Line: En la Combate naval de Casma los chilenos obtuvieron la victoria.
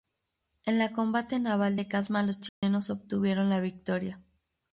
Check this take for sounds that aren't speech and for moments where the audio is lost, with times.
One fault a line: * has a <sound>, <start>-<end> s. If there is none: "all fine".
* has a dropout, 2.5-2.6 s